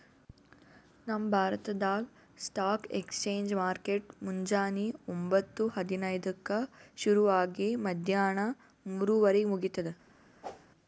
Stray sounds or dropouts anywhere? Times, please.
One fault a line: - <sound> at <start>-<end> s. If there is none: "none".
- whoosh at 10.4-10.7 s